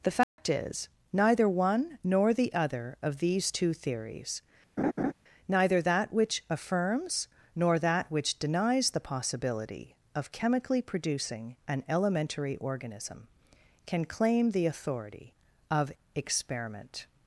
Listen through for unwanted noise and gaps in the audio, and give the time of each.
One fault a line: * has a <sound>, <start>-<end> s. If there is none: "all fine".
* has a dropout, 0.2-0.4 s
* has a laugh, 4.8-5.1 s